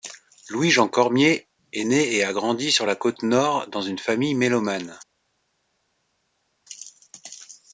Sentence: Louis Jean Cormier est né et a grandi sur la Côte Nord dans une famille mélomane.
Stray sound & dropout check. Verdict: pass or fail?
pass